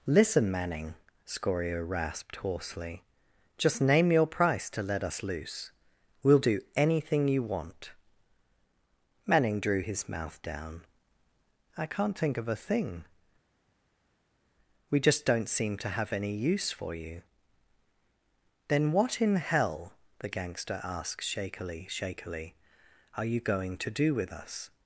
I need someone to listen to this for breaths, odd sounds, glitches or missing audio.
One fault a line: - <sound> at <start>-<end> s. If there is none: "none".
none